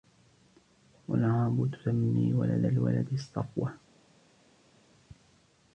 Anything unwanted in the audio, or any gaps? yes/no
no